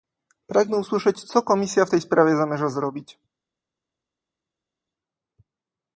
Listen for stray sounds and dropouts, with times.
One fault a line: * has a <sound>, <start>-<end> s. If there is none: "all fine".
all fine